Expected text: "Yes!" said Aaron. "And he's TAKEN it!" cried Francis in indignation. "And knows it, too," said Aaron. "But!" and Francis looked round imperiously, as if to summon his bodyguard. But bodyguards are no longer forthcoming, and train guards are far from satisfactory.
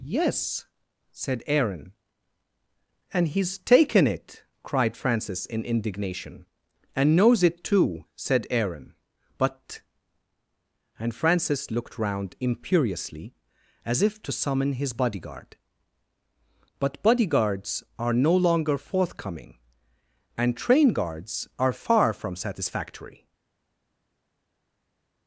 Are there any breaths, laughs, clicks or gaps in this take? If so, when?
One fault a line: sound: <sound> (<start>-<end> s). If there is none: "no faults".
no faults